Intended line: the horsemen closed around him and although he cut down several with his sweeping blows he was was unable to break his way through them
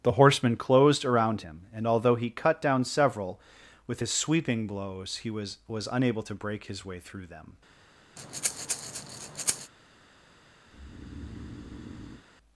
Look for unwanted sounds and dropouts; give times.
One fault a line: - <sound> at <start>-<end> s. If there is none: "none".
- breath at 8.2-9.7 s
- breath at 10.7-12.2 s